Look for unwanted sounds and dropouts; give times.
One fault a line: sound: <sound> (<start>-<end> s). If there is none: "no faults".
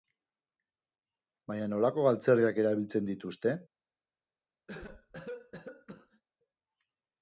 sound: cough (4.7-6.2 s)